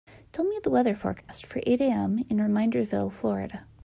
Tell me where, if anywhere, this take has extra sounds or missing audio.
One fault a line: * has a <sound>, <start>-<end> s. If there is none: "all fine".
* has a dropout, 1.2-1.3 s